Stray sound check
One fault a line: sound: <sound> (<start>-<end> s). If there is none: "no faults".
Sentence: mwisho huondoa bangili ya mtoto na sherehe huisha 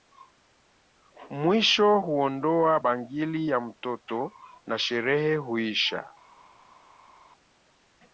no faults